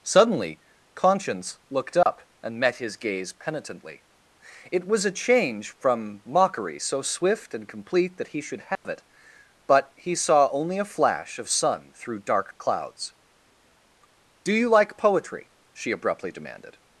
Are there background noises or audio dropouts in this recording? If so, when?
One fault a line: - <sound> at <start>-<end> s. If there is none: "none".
- dropout at 2.0-2.1 s
- dropout at 8.8-8.8 s